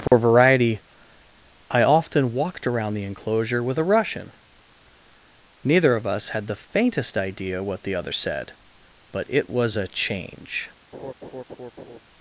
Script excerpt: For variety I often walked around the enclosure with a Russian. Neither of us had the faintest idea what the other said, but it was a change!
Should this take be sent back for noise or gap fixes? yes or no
yes